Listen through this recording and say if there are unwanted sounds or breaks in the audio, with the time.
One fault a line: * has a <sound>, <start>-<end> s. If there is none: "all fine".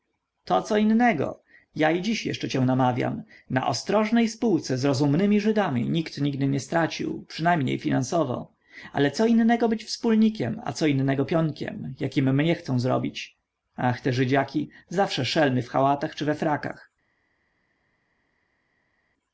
all fine